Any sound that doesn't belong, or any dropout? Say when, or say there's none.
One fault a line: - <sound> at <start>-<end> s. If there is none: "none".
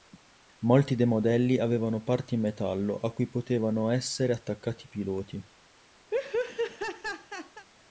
- laugh at 6.1-7.7 s